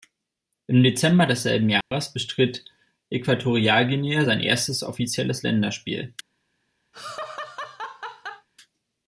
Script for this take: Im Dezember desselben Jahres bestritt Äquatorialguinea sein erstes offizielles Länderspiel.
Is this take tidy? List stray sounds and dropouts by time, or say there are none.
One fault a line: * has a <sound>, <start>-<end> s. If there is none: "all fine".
* has a dropout, 1.8-1.9 s
* has a laugh, 6.9-8.5 s